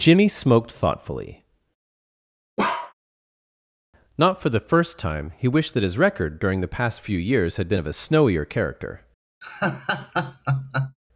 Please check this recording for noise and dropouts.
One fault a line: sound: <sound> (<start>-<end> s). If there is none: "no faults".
sound: bark (2.6-2.9 s)
sound: laugh (9.4-11.0 s)